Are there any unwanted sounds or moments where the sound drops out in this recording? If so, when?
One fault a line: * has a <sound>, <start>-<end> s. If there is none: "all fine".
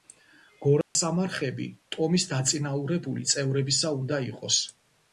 * has a dropout, 0.8-1.0 s